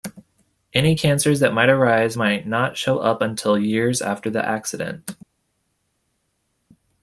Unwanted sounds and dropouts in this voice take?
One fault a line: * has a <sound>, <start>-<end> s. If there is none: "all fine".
all fine